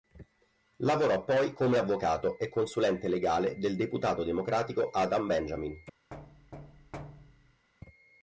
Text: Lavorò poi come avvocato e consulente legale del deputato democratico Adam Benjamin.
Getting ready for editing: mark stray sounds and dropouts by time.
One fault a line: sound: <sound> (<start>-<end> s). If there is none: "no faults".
sound: thud (6.1-7.7 s)